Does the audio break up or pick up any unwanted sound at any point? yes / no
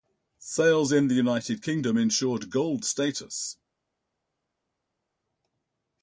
no